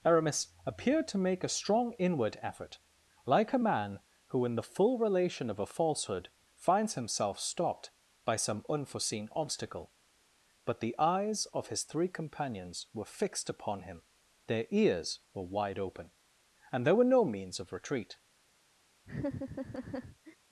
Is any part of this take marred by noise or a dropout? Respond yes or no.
yes